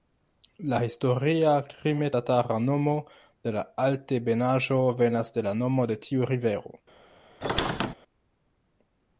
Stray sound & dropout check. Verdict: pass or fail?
fail